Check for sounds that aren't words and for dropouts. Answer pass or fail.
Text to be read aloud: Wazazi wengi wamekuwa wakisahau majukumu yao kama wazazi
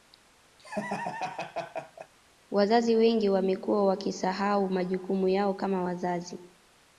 fail